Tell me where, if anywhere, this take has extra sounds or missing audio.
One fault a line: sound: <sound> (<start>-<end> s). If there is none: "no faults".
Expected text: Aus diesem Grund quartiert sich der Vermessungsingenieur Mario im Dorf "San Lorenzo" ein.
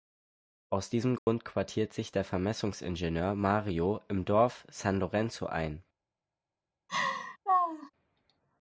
sound: dropout (1.2-1.3 s)
sound: laugh (6.9-7.9 s)